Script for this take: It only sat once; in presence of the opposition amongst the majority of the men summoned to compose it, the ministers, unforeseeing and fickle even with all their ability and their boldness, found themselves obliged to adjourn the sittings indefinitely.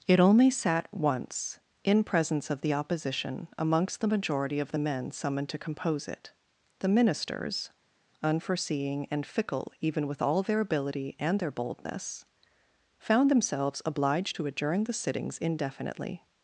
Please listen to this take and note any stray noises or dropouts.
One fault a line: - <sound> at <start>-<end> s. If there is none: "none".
none